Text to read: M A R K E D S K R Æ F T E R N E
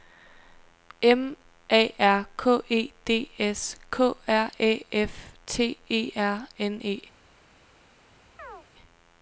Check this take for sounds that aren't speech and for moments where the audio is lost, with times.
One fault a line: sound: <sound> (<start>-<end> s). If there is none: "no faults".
sound: chirp (8.4-8.7 s)